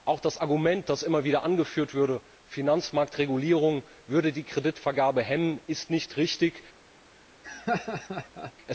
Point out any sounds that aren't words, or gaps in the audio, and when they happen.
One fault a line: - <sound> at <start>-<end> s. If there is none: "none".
- laugh at 7.4-8.5 s